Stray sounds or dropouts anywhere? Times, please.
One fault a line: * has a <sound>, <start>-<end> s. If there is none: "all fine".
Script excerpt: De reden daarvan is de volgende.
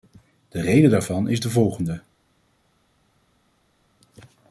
all fine